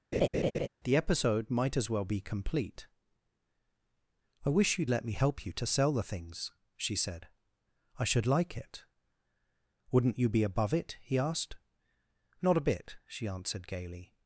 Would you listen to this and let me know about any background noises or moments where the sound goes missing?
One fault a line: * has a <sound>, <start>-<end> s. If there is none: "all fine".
* has a laugh, 0.1-0.7 s